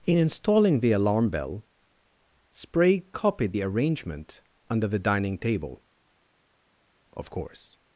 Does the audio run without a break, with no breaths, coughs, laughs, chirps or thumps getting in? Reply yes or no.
yes